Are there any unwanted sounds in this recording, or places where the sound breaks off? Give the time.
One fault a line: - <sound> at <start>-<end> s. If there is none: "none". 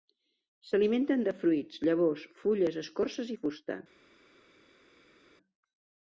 none